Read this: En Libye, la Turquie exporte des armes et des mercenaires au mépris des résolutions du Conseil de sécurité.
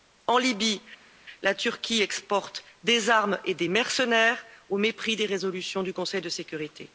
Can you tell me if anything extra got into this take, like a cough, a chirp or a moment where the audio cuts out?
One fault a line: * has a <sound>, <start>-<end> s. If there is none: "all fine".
all fine